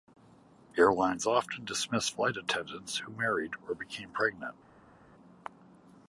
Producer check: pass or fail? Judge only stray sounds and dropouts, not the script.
pass